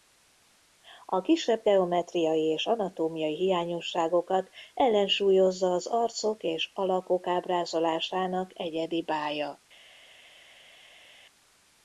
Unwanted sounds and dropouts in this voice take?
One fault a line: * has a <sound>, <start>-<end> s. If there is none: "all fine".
all fine